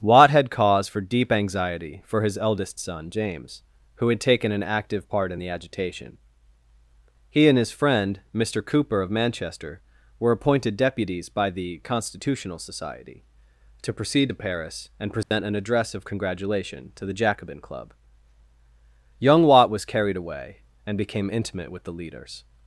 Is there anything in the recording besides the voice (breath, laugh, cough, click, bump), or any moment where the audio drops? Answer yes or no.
yes